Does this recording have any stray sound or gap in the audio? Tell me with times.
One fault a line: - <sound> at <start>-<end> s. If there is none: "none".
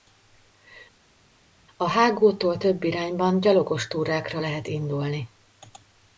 none